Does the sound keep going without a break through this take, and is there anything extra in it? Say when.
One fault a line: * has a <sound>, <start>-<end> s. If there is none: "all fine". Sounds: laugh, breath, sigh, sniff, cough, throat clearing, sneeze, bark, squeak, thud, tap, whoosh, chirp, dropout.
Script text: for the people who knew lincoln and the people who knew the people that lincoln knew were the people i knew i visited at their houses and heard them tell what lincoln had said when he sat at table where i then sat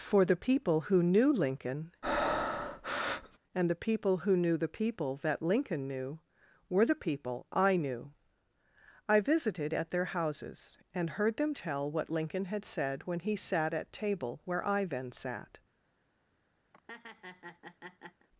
* has a breath, 2.0-3.4 s
* has a laugh, 16.7-18.3 s